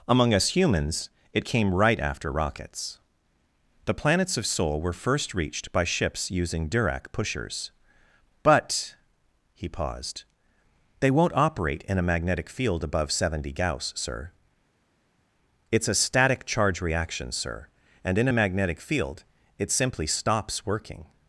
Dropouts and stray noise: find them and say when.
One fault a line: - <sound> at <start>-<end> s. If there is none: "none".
none